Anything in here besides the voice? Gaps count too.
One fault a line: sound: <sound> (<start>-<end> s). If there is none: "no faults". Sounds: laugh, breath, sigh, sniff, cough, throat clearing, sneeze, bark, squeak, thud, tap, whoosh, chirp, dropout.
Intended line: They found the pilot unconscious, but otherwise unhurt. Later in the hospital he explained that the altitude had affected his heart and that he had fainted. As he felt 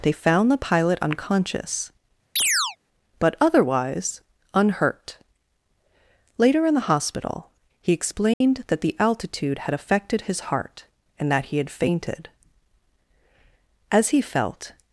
sound: chirp (2.4-2.8 s)
sound: dropout (8.3-8.4 s)